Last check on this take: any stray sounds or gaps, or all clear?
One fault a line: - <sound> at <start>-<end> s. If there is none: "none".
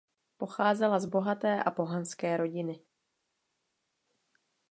none